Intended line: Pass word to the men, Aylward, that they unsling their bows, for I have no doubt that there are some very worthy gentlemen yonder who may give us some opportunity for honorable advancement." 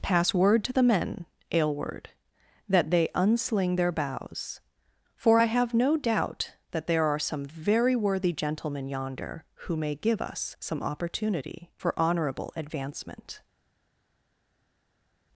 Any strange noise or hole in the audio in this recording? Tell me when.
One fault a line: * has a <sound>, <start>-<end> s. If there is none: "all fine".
all fine